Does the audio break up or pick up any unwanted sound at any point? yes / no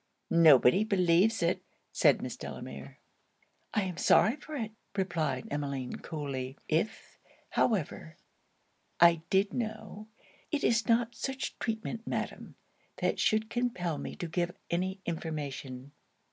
no